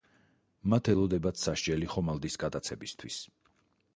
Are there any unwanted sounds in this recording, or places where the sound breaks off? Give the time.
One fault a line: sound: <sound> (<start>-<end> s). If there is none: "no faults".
no faults